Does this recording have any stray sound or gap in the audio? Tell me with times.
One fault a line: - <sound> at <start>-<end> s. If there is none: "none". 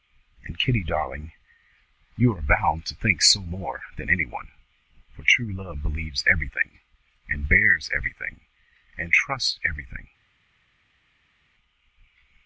none